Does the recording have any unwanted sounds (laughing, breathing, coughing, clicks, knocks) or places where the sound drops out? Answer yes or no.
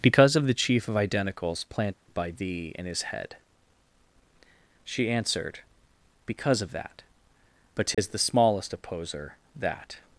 yes